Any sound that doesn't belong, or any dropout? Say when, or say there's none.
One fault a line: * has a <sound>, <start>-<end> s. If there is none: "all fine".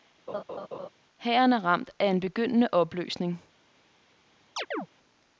* has a laugh, 0.3-0.9 s
* has a chirp, 4.6-4.9 s